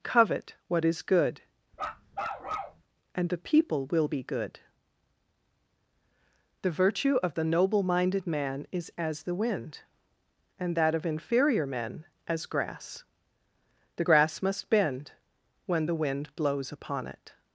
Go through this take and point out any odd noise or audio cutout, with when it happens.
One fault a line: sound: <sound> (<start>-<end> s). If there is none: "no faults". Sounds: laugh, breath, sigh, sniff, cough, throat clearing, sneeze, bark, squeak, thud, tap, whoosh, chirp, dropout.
sound: bark (1.7-2.8 s)